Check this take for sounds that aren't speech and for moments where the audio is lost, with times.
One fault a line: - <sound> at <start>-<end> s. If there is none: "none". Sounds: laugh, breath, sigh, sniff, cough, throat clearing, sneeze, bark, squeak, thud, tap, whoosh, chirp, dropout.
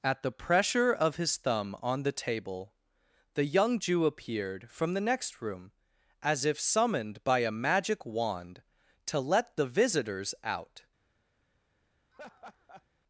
- laugh at 12.1-12.8 s